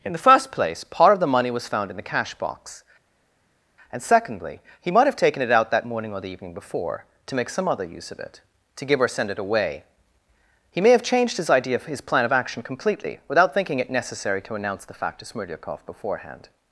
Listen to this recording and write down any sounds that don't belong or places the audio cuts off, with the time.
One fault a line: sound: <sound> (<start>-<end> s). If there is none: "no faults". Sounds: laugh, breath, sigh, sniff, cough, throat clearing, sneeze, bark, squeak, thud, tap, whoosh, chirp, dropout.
no faults